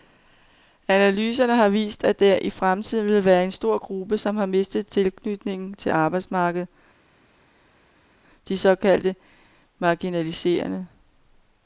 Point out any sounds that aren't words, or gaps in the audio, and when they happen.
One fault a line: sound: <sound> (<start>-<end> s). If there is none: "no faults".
no faults